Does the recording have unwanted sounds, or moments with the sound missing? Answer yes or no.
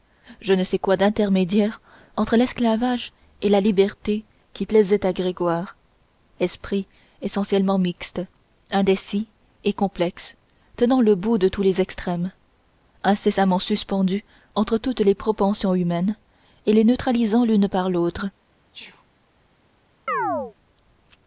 yes